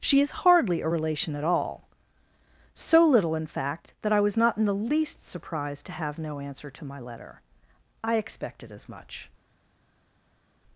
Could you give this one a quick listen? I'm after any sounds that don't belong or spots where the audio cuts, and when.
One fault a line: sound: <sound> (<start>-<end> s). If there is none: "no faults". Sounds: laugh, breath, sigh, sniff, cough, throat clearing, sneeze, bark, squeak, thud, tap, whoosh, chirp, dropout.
no faults